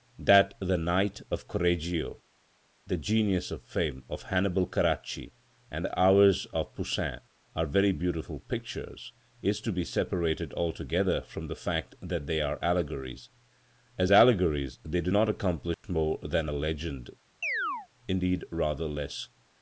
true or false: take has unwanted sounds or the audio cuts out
true